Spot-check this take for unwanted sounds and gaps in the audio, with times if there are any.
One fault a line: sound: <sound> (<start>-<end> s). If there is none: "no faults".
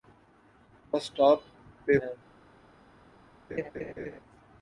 sound: laugh (3.5-4.2 s)